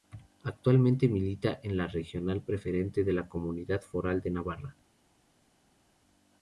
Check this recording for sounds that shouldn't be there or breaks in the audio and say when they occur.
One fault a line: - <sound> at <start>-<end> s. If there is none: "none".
none